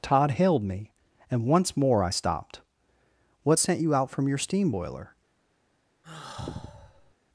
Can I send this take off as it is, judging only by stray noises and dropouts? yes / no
no